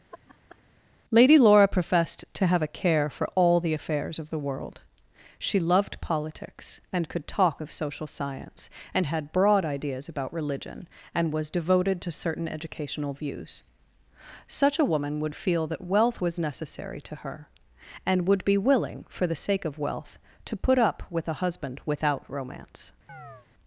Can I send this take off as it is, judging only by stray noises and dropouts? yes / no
no